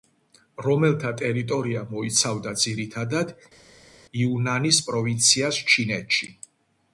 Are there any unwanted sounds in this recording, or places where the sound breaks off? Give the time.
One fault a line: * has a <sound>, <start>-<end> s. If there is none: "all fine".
all fine